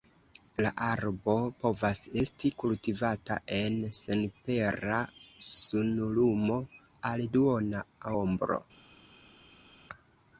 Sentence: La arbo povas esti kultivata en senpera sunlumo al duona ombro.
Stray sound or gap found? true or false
false